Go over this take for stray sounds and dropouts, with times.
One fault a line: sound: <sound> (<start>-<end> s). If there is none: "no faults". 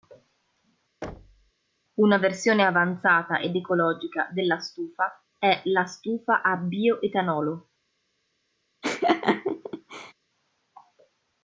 sound: thud (1.0-1.5 s)
sound: laugh (8.8-10.1 s)